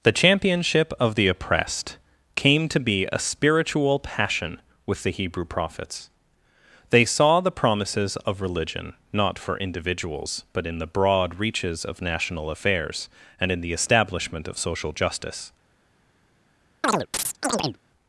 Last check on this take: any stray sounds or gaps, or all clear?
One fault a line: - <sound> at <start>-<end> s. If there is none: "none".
- chirp at 16.8-17.8 s